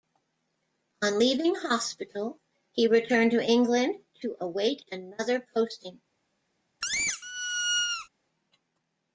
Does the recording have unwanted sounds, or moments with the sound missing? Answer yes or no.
yes